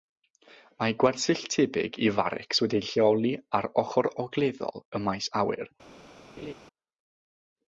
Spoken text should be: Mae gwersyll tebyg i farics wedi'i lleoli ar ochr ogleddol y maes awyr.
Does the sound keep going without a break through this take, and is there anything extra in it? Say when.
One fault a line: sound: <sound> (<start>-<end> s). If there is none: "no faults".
sound: laugh (6.4-6.5 s)